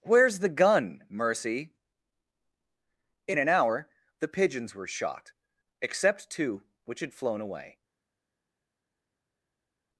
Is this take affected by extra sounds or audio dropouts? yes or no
no